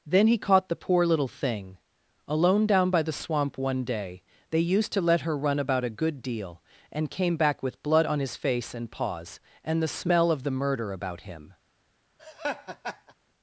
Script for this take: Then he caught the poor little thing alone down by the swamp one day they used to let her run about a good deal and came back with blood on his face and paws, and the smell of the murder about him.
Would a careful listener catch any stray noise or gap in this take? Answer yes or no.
yes